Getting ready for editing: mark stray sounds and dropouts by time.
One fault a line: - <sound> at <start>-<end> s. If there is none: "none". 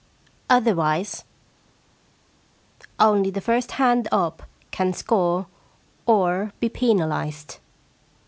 none